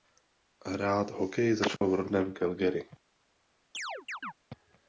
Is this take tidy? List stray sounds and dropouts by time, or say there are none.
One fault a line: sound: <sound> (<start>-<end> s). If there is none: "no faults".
sound: dropout (1.8-1.8 s)
sound: chirp (3.7-4.3 s)